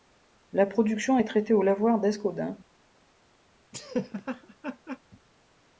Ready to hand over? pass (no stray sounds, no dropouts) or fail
fail